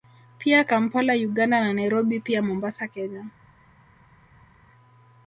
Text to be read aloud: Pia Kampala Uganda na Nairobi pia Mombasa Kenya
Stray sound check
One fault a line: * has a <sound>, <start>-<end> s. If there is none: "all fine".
all fine